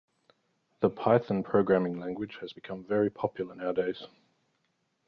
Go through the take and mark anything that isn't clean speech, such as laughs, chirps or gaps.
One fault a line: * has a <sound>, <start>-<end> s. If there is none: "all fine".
all fine